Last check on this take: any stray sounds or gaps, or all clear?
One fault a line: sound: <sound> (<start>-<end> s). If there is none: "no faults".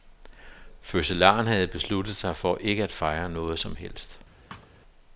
sound: thud (4.5-4.7 s)